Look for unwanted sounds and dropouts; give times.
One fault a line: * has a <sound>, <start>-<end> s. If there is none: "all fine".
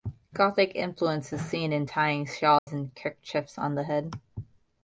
* has a dropout, 2.6-2.7 s